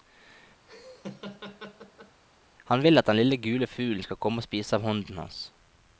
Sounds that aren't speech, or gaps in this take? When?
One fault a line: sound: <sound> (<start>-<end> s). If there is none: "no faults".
sound: laugh (0.7-2.2 s)